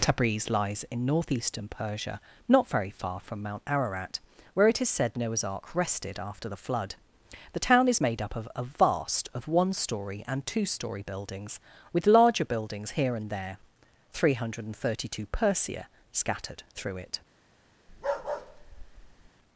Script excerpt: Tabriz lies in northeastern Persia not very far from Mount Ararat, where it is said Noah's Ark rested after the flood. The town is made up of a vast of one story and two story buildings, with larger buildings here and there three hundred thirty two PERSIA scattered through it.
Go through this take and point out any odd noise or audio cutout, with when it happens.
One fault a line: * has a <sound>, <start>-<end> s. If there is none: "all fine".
* has a bark, 17.9-19.3 s